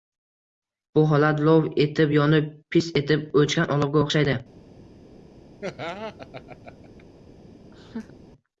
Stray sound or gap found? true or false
true